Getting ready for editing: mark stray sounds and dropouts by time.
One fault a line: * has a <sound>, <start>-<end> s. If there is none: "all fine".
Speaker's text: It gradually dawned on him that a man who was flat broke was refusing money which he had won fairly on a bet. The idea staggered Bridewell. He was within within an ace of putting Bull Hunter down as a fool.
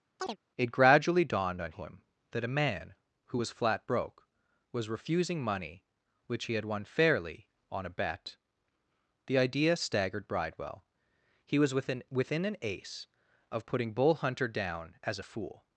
* has a chirp, 0.2-0.4 s